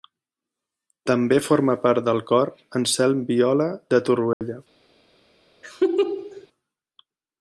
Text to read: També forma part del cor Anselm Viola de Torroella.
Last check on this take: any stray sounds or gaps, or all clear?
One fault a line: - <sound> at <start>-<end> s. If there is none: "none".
- dropout at 4.3-4.4 s
- laugh at 5.6-6.5 s